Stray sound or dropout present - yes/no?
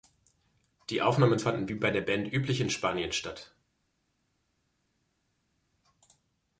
no